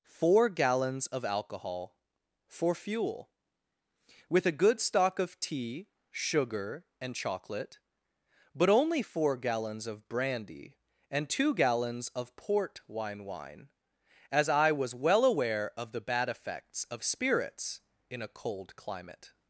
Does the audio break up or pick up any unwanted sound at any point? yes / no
no